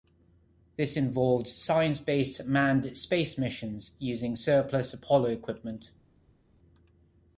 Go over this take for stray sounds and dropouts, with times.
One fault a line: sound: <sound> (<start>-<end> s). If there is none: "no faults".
no faults